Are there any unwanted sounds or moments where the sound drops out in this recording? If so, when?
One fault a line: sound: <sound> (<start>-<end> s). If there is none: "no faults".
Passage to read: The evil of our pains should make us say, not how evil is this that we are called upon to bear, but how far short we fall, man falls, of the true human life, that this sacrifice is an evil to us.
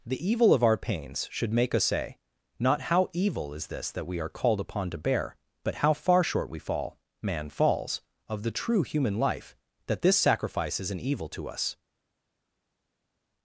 no faults